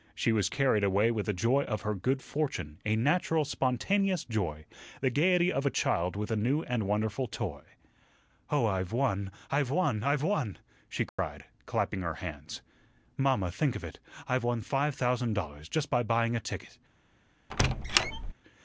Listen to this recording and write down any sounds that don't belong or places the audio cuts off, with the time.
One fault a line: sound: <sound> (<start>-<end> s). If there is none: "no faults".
sound: dropout (11.1-11.2 s)
sound: squeak (17.5-18.3 s)